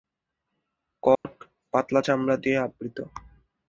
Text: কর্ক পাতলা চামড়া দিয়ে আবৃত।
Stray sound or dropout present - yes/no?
yes